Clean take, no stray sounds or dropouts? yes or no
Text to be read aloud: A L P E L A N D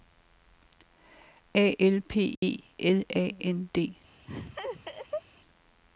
no